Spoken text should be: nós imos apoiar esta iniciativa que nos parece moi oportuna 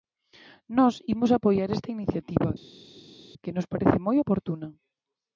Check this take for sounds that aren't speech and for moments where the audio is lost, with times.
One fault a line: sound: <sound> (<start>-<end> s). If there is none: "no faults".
no faults